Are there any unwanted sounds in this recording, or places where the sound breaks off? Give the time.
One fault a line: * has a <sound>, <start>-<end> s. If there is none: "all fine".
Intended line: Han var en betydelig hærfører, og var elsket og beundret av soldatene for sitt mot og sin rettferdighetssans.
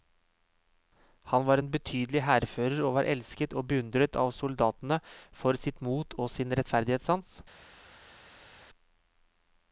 all fine